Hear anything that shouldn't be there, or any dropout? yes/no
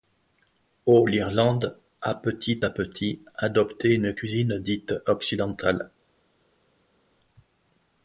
no